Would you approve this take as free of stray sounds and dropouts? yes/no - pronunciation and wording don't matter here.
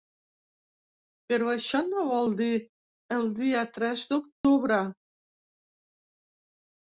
no